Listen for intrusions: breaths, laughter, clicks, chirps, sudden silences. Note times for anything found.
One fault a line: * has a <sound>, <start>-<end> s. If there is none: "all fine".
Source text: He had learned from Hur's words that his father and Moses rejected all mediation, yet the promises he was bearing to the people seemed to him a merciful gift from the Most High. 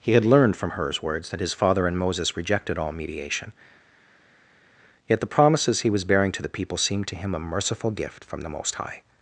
all fine